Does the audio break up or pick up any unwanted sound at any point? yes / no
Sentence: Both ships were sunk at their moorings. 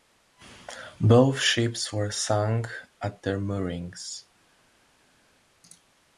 no